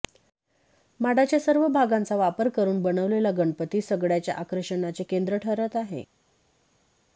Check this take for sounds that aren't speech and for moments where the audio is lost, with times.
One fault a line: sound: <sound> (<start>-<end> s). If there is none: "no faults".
no faults